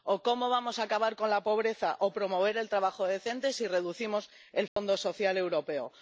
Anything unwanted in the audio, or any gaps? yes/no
yes